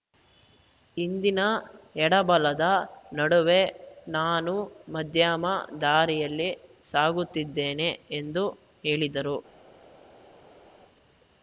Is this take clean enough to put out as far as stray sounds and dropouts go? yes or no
yes